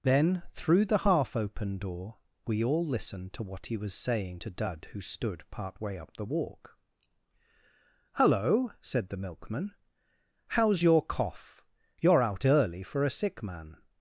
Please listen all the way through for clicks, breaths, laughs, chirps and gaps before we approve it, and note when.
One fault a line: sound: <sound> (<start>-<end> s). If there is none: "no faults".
no faults